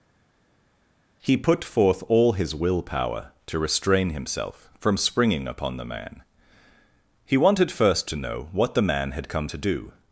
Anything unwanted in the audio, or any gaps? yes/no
no